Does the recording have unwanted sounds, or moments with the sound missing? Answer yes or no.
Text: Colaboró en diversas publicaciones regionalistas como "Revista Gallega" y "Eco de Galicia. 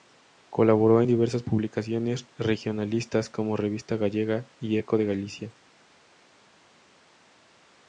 no